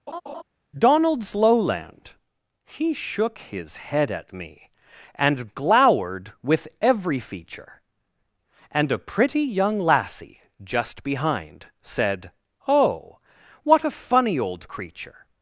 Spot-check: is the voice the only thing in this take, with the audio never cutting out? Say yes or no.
no